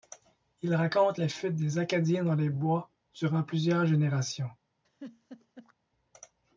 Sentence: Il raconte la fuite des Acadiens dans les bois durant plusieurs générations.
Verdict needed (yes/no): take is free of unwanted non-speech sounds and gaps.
no